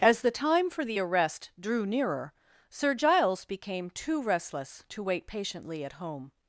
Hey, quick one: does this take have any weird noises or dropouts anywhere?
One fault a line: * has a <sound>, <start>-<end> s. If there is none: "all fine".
all fine